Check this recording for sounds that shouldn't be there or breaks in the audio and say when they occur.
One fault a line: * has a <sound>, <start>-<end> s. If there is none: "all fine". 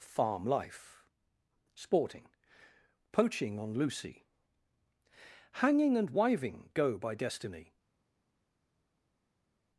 all fine